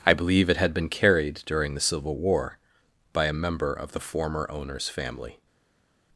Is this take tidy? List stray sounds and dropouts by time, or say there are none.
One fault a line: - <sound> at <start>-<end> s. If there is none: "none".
none